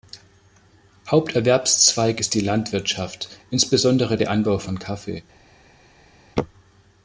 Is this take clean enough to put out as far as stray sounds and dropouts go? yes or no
yes